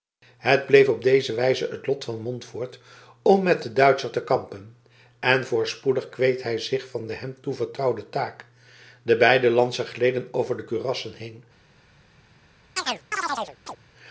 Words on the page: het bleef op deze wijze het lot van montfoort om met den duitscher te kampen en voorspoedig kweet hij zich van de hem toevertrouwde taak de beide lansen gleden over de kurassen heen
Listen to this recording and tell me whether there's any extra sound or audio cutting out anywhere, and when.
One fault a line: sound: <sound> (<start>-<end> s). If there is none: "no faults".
sound: chirp (12.8-13.8 s)